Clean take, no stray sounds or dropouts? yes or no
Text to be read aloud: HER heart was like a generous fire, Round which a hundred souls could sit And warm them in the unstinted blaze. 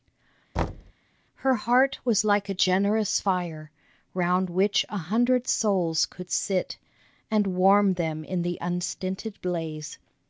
no